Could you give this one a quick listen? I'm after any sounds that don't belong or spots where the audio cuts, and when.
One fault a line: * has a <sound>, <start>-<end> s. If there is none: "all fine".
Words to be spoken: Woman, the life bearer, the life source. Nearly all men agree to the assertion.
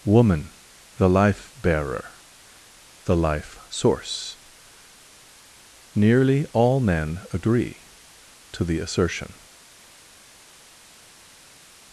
all fine